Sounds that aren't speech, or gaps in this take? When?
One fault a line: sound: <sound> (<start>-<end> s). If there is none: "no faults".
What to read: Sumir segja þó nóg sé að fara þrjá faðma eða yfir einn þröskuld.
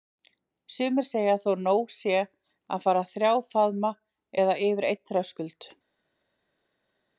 no faults